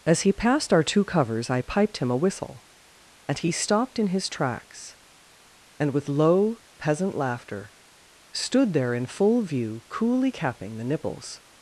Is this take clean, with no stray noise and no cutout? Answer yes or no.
yes